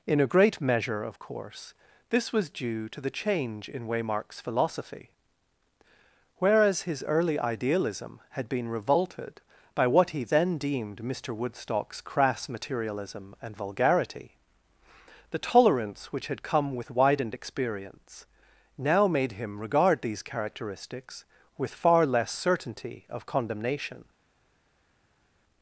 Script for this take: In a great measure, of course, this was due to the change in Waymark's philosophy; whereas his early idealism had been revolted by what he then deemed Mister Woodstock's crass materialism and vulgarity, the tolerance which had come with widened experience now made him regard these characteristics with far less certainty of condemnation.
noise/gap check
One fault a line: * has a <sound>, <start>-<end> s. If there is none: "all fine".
all fine